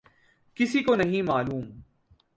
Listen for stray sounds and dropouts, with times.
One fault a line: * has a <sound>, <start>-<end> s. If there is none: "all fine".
all fine